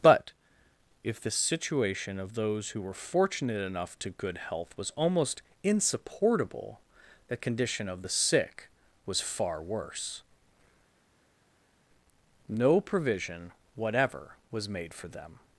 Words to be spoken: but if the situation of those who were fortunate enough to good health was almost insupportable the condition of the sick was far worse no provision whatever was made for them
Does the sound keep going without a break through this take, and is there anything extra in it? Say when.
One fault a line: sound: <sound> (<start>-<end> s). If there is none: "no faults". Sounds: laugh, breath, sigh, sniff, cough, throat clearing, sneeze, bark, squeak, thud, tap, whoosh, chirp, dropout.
no faults